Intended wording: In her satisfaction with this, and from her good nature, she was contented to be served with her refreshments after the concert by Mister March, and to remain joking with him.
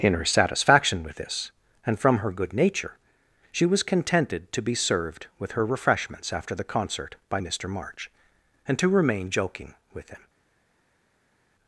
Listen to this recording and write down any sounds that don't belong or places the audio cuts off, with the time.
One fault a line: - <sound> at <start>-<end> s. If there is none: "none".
none